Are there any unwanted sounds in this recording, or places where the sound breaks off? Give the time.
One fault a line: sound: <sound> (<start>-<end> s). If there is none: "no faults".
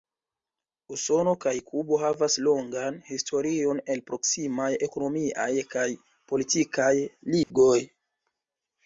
sound: dropout (7.4-7.5 s)